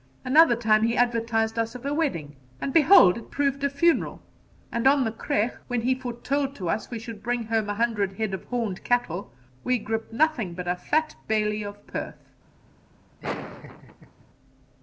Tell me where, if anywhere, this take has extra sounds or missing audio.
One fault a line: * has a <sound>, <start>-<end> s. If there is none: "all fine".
* has a laugh, 13.2-14.2 s